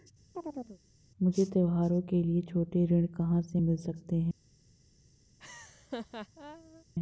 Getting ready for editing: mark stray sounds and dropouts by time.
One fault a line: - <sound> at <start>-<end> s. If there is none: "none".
- chirp at 0.3-0.8 s
- laugh at 5.4-6.8 s